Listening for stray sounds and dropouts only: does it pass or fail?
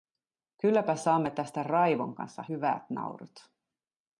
pass